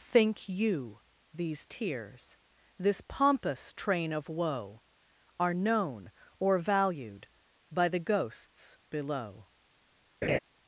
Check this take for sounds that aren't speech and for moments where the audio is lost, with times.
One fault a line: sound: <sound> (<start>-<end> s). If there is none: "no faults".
sound: laugh (10.2-10.4 s)